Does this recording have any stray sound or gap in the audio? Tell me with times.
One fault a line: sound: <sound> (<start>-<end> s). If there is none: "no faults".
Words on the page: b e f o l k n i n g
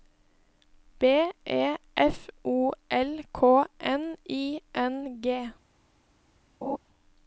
sound: laugh (6.6-6.8 s)